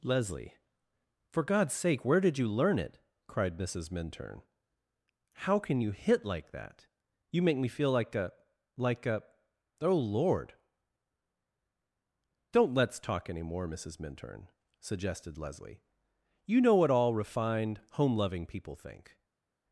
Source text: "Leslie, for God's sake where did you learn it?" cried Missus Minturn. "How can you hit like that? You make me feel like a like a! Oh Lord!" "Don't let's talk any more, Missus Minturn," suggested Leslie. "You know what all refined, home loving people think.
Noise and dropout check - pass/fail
pass